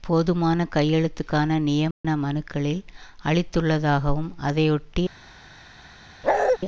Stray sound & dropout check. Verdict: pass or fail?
fail